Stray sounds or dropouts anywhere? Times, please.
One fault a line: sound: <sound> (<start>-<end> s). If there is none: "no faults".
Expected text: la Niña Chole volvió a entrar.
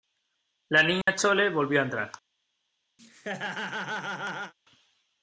sound: dropout (1.0-1.1 s)
sound: laugh (3.0-4.5 s)